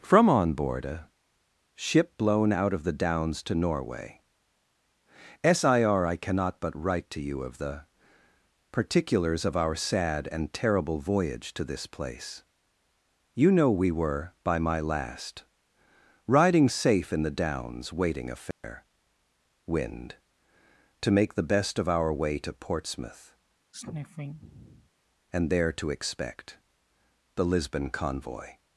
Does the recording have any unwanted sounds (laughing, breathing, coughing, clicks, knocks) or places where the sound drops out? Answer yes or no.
yes